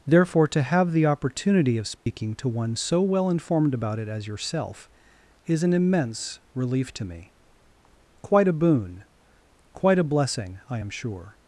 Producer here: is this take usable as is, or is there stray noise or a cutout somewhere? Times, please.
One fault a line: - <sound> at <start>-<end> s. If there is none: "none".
- dropout at 2.0-2.1 s